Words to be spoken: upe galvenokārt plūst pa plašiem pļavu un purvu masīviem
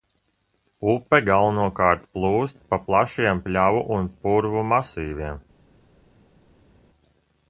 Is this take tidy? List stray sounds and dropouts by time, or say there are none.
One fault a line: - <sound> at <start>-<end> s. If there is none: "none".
none